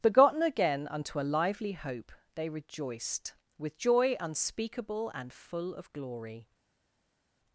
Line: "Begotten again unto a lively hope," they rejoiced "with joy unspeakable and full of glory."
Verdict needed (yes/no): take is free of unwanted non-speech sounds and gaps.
yes